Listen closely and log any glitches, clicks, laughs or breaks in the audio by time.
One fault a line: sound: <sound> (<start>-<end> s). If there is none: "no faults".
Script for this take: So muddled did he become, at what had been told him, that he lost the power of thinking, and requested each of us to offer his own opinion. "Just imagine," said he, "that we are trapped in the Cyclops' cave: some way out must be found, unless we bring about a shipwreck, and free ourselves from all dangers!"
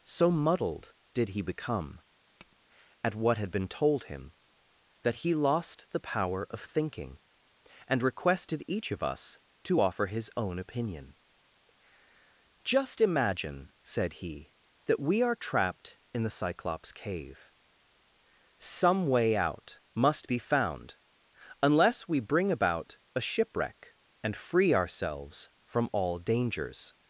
sound: tap (2.4-2.6 s)